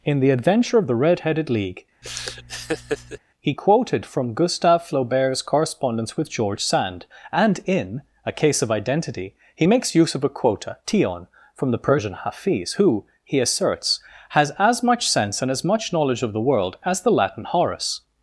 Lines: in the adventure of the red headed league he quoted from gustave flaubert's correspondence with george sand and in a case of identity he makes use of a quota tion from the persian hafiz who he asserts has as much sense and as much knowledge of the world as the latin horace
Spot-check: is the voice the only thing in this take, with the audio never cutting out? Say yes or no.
no